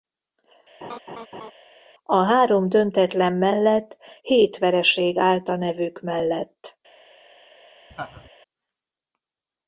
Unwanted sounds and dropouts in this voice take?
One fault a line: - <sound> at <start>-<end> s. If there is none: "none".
- laugh at 0.8-1.5 s
- laugh at 7.9-8.3 s